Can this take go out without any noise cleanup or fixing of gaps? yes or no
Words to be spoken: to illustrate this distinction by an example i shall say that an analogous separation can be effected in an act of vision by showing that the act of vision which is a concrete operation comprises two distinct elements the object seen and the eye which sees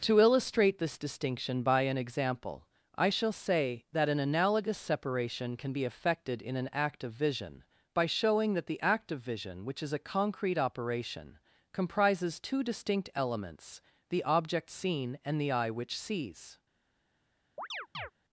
no